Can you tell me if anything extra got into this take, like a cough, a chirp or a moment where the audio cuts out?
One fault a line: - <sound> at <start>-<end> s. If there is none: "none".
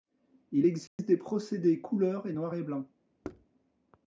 - dropout at 0.9-1.0 s
- thud at 3.2-3.5 s